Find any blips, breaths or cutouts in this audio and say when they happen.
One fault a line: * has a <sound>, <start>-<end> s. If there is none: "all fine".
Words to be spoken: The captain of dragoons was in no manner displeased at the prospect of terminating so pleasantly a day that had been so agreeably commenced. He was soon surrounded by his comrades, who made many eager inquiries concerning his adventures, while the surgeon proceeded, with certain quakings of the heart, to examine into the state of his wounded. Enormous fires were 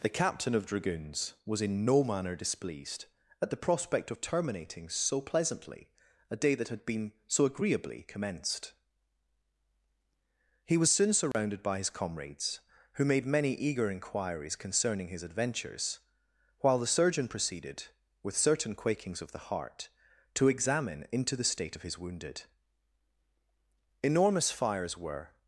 * has a dropout, 11.3-11.3 s